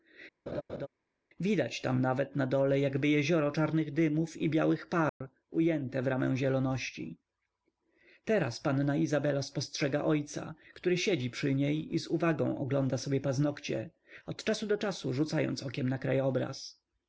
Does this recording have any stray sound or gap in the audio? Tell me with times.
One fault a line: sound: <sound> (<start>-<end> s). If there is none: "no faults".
sound: laugh (0.5-0.9 s)
sound: dropout (5.1-5.2 s)